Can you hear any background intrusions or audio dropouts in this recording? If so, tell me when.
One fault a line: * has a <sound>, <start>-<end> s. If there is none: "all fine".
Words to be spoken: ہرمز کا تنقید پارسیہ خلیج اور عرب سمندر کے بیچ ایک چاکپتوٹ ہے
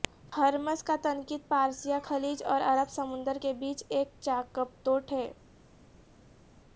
all fine